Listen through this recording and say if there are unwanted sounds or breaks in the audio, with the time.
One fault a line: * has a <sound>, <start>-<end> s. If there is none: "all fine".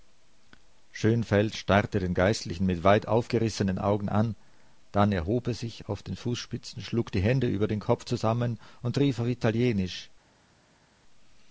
all fine